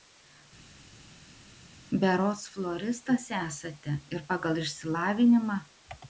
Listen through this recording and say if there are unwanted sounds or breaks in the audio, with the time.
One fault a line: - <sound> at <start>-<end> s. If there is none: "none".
none